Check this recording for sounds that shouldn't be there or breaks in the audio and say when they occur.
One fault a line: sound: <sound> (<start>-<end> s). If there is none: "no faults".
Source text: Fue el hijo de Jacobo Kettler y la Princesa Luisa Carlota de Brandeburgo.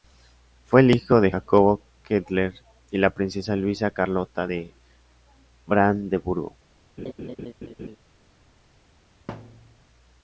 sound: laugh (7.0-8.0 s)
sound: thud (9.3-9.8 s)